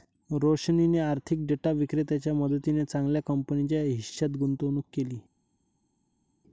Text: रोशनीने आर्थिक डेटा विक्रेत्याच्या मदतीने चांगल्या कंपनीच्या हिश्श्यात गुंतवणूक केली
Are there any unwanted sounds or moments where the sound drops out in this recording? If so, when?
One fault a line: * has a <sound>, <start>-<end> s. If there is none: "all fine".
all fine